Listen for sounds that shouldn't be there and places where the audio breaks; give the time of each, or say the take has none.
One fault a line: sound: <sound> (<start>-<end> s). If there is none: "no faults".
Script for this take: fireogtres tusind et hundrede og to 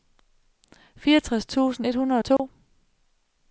sound: dropout (2.4-2.4 s)